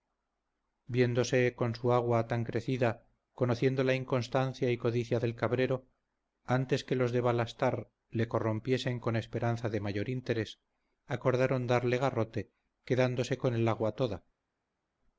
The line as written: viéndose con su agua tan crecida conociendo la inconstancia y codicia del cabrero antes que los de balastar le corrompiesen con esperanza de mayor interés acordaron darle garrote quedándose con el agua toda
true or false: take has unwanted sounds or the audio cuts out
false